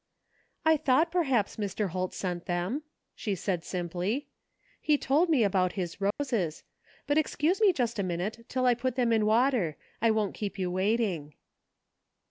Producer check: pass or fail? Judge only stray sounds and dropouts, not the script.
fail